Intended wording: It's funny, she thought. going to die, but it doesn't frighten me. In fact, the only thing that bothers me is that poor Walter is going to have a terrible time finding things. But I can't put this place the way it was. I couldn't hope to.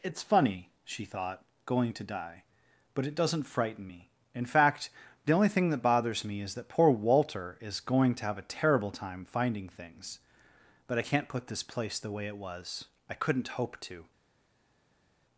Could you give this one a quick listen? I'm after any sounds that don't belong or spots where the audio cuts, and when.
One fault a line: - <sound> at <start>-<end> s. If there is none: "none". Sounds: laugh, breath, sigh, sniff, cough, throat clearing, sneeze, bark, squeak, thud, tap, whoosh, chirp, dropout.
none